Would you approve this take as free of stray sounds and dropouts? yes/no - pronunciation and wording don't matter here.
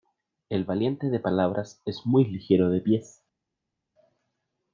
yes